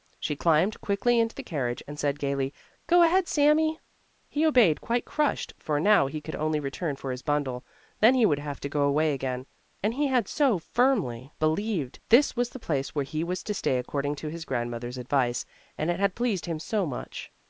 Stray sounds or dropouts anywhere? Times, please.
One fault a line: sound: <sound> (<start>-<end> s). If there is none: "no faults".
no faults